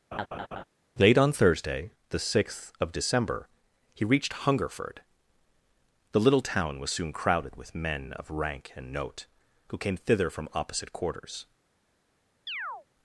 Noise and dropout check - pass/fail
fail